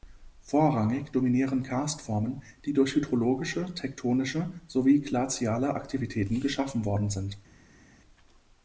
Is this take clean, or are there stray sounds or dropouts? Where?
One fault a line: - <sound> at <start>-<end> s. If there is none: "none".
none